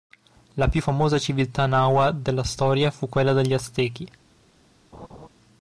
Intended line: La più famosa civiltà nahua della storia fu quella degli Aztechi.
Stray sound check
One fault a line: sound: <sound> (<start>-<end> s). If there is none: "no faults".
sound: laugh (4.9-5.3 s)